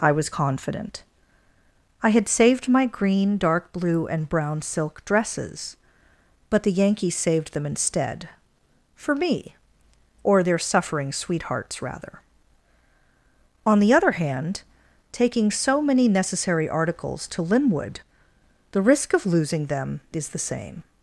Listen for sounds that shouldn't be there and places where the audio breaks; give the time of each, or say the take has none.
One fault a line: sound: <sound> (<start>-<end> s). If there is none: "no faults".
no faults